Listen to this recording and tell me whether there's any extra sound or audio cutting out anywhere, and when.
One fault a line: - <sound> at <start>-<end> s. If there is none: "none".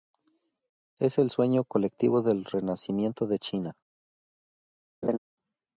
- laugh at 5.0-5.2 s